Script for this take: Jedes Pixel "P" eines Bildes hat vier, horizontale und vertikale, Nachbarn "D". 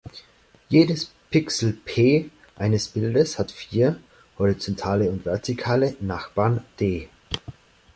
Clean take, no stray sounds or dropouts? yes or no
yes